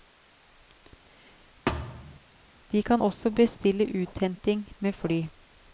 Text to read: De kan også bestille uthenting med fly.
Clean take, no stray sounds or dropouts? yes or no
no